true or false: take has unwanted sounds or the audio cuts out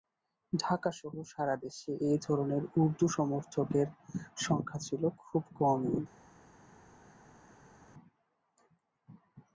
false